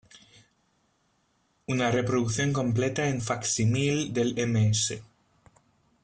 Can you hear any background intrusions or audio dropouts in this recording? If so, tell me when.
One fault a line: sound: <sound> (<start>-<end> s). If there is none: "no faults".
no faults